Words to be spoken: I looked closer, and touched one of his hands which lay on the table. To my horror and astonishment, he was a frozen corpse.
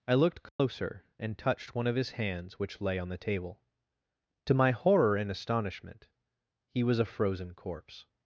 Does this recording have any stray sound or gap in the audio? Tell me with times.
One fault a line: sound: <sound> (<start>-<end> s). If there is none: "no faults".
sound: dropout (0.5-0.6 s)